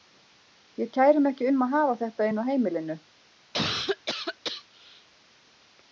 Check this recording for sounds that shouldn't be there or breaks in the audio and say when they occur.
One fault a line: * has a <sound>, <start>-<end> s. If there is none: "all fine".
* has a cough, 3.5-5.1 s